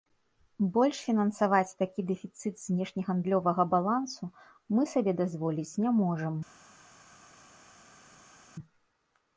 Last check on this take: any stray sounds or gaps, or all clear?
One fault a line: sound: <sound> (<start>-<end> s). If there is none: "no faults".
no faults